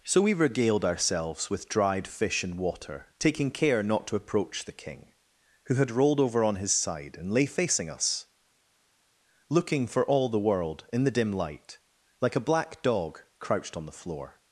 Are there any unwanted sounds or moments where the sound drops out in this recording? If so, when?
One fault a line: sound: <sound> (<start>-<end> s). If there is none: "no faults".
no faults